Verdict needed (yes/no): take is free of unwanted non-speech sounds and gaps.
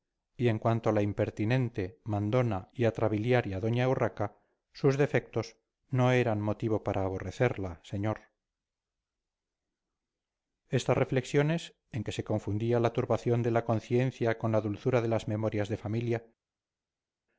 yes